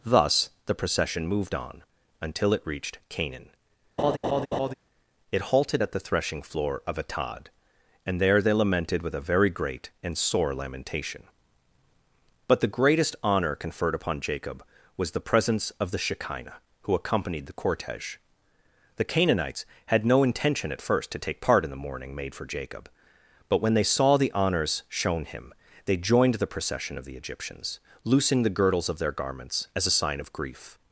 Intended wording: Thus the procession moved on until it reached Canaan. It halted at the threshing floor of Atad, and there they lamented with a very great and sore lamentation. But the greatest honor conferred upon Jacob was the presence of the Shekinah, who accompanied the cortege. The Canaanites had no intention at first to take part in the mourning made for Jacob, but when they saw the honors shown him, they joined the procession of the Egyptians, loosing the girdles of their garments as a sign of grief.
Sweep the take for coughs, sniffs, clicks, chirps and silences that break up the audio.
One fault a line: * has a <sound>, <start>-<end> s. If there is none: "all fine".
* has a laugh, 4.0-4.7 s